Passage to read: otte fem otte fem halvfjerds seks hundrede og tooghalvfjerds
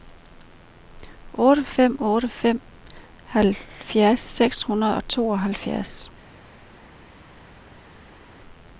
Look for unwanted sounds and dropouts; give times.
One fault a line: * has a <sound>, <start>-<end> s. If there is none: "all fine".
all fine